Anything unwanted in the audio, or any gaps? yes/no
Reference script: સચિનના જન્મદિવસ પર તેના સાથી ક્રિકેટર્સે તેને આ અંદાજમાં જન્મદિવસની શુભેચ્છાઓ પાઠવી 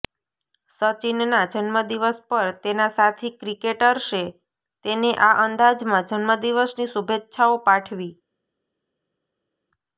no